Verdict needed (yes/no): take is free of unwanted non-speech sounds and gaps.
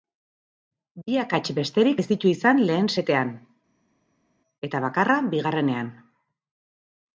yes